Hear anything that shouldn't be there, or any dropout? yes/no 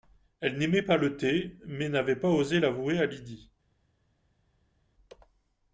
no